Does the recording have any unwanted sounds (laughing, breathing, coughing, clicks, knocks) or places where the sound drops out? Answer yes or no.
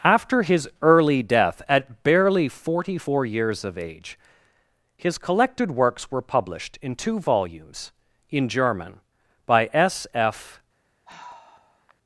yes